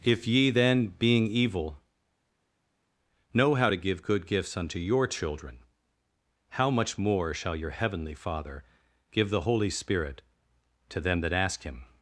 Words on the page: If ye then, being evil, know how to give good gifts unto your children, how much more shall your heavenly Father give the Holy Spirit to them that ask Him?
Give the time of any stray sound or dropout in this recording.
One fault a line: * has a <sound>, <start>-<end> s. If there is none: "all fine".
all fine